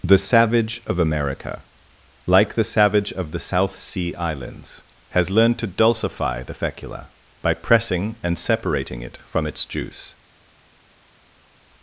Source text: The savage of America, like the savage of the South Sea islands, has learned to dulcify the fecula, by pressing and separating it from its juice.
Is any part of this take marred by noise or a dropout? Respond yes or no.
no